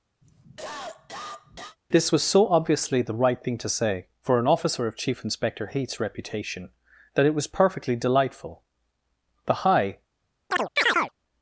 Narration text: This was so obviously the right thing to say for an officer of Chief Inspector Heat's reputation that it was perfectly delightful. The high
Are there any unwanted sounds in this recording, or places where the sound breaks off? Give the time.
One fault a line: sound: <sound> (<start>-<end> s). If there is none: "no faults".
sound: cough (0.2-1.8 s)
sound: chirp (10.5-11.1 s)